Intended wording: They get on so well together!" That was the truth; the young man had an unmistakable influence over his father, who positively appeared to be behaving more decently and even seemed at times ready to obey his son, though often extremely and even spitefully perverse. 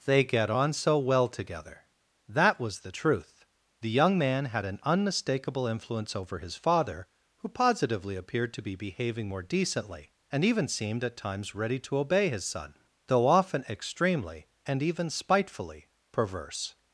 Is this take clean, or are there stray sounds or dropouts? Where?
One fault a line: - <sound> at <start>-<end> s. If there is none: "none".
none